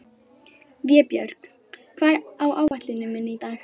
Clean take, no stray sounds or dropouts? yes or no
no